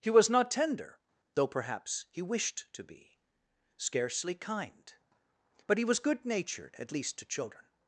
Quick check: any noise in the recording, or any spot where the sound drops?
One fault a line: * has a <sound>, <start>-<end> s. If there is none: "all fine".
all fine